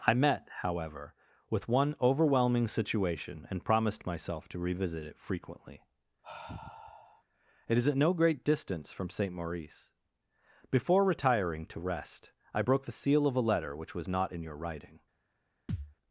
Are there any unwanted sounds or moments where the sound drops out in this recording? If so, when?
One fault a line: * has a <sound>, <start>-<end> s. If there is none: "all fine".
* has a sigh, 6.2-7.2 s
* has a thud, 15.7-15.9 s